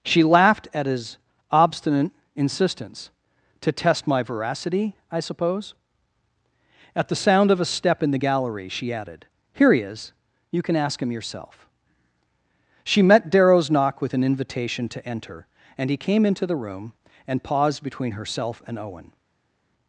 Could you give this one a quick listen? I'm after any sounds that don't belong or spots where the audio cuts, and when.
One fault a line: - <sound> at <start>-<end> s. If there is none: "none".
none